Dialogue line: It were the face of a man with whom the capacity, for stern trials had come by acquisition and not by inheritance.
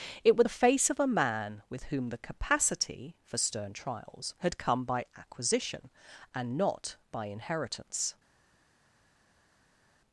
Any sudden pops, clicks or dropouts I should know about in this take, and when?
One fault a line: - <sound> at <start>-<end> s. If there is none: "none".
none